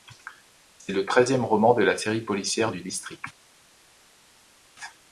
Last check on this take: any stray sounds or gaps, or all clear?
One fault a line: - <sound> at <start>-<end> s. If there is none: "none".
none